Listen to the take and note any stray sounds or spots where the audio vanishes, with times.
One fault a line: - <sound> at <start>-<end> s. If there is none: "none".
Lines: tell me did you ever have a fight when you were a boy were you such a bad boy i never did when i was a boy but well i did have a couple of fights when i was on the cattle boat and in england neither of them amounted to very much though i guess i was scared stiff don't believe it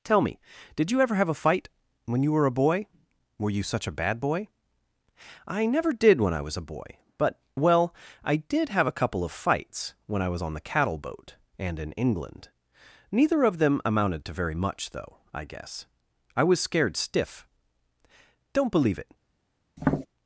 - tap at 19.8-20.1 s